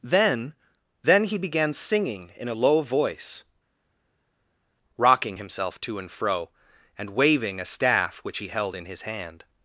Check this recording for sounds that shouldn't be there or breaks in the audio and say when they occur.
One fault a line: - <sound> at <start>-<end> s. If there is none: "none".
none